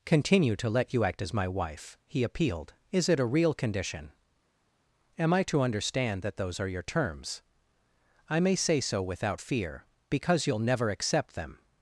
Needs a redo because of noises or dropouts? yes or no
no